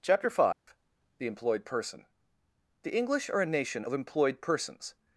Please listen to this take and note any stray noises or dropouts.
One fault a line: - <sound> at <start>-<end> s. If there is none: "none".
- dropout at 0.5-0.7 s